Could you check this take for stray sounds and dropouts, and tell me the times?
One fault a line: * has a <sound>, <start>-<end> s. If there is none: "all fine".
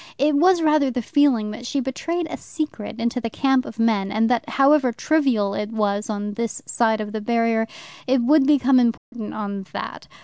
* has a dropout, 9.0-9.1 s